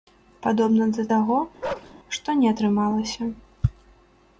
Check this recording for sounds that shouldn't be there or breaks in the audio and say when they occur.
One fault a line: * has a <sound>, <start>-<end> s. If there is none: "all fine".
* has a bark, 1.6-1.9 s